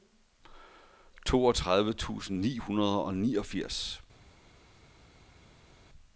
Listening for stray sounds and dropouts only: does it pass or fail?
pass